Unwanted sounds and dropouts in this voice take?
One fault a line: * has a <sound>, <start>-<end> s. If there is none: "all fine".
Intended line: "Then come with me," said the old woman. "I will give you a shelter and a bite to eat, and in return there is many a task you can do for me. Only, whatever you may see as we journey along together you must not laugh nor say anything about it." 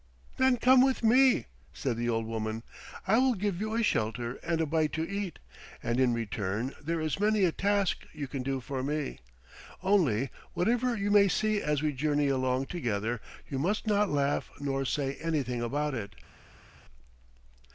all fine